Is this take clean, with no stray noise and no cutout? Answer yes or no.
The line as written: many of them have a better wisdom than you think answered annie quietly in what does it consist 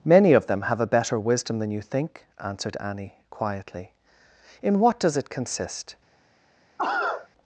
no